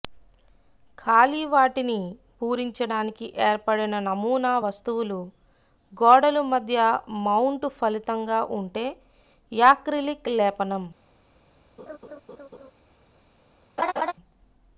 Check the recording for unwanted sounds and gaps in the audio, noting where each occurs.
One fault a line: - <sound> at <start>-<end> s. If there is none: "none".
- laugh at 11.8-12.7 s
- laugh at 13.8-14.1 s